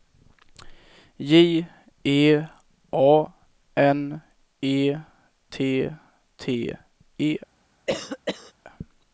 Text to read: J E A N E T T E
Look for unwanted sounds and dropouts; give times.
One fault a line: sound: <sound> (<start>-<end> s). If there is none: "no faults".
sound: cough (7.9-8.5 s)